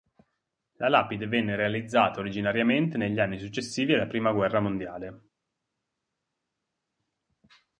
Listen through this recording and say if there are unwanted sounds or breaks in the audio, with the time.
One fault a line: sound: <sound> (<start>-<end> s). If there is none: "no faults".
no faults